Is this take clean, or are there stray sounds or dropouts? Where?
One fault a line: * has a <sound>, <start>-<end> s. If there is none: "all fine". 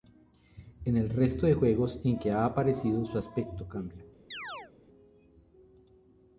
* has a chirp, 4.3-4.7 s